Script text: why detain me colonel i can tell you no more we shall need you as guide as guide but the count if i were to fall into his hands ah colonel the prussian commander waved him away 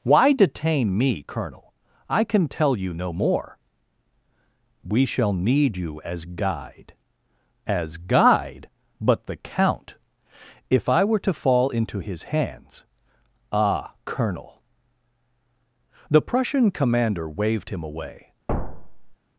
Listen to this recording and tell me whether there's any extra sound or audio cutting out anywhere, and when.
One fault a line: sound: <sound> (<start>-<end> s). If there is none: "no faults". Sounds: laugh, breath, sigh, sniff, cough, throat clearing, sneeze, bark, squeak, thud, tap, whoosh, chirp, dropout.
sound: thud (18.5-19.2 s)